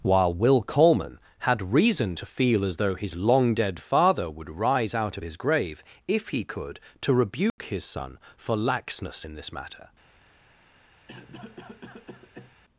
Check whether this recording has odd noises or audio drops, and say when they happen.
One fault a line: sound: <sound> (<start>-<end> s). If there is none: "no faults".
sound: dropout (7.5-7.6 s)
sound: cough (11.1-12.6 s)